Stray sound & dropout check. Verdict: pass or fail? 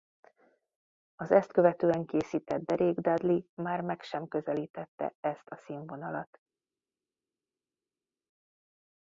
pass